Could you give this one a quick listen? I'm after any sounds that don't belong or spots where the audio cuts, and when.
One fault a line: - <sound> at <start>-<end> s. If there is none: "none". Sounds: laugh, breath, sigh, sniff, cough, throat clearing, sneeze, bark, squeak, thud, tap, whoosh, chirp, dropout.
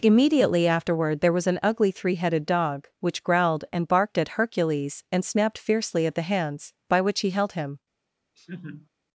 - laugh at 8.4-8.9 s